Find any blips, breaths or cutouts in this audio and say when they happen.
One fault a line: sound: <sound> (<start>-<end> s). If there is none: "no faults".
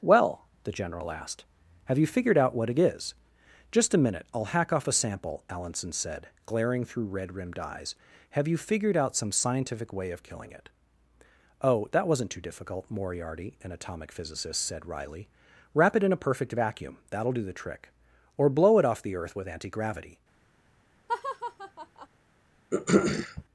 sound: laugh (21.1-22.1 s)
sound: throat clearing (22.7-23.4 s)